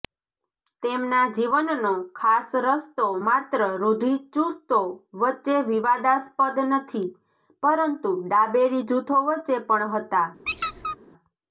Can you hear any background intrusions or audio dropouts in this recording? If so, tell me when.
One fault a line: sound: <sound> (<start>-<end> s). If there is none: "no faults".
sound: squeak (10.5-11.0 s)